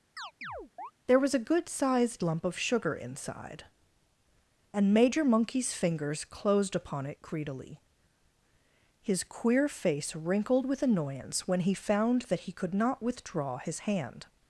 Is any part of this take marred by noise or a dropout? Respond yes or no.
yes